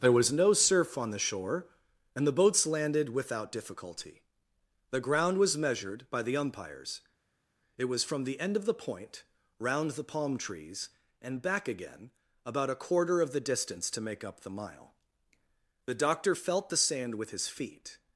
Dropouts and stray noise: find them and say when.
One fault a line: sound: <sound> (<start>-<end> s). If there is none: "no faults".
no faults